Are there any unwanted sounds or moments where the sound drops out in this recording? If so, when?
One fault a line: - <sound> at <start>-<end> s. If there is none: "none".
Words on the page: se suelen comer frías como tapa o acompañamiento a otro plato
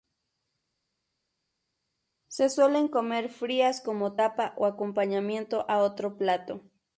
none